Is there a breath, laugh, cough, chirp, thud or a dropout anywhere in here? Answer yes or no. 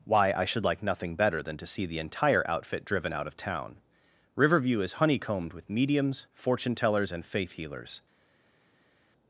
no